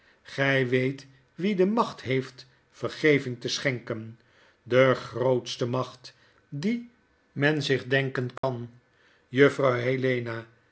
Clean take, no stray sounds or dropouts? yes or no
no